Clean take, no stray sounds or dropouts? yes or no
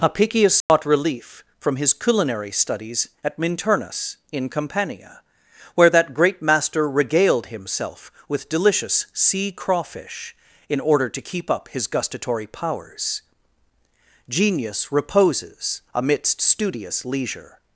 no